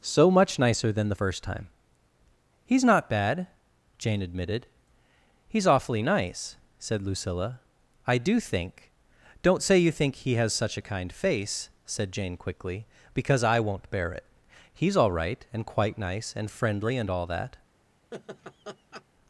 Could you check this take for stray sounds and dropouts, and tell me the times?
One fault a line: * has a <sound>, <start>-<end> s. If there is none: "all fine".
* has a laugh, 18.1-19.0 s